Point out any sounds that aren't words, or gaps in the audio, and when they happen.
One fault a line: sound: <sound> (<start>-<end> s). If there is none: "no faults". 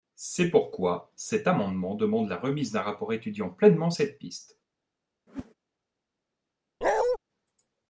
sound: whoosh (5.3-5.5 s)
sound: bark (6.8-7.2 s)